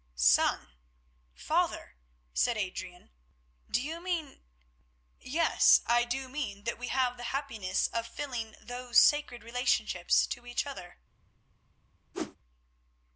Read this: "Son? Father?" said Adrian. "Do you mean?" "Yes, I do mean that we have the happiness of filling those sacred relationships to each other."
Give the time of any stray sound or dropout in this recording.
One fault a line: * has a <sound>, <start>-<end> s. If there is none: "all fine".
* has a whoosh, 12.1-12.4 s